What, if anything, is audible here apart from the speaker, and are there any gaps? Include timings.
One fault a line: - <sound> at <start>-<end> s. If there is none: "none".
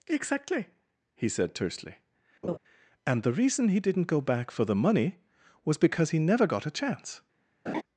- laugh at 2.4-2.6 s
- laugh at 7.7-7.8 s